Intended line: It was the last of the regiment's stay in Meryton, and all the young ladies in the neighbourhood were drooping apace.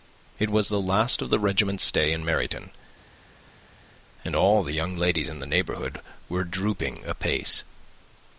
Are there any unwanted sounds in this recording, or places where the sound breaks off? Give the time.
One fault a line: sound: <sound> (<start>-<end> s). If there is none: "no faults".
no faults